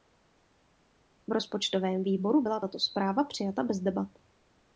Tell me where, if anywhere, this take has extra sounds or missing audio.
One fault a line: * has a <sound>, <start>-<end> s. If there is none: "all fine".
all fine